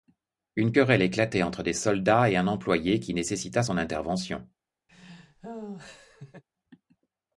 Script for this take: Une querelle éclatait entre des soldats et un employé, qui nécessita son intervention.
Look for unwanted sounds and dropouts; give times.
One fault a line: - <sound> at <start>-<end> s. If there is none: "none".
- laugh at 4.9-6.4 s